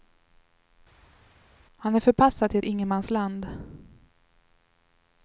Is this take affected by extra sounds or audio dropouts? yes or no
no